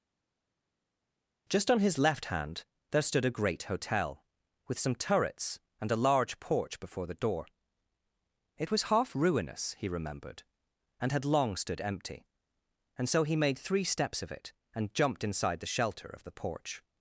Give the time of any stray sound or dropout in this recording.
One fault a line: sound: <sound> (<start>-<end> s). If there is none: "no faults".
no faults